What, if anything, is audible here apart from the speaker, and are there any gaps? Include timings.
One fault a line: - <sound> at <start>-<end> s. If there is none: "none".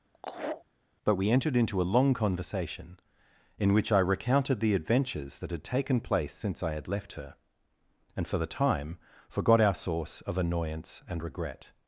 - laugh at 0.1-0.6 s